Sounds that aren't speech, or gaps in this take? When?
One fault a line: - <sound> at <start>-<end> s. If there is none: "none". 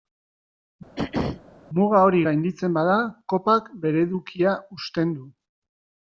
- throat clearing at 1.0-1.4 s